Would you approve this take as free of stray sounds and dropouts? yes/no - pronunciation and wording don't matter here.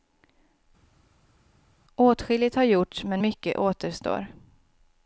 yes